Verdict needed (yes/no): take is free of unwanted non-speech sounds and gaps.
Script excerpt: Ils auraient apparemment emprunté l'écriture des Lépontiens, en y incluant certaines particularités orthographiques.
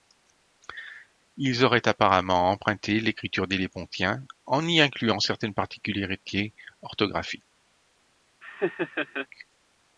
no